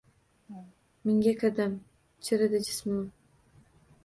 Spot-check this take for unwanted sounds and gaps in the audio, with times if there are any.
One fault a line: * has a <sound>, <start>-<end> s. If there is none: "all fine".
* has a laugh, 0.5-0.8 s